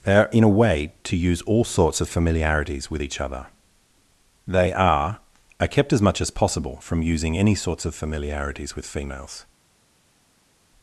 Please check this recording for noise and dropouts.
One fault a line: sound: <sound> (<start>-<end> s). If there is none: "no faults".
no faults